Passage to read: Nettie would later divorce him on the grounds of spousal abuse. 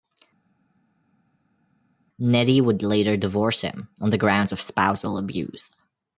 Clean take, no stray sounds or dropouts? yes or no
yes